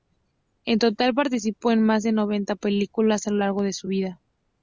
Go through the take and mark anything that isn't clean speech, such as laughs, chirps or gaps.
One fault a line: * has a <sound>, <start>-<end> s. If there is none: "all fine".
all fine